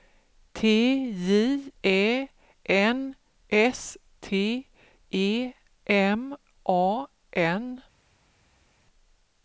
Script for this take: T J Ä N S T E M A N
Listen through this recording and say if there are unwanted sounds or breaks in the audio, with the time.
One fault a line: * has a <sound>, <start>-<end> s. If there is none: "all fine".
all fine